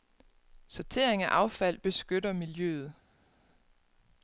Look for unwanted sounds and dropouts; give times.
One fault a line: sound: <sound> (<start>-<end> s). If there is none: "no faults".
no faults